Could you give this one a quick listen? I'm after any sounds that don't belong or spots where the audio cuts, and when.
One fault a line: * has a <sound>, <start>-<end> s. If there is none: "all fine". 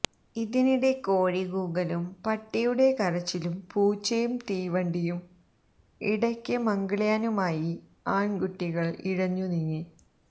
all fine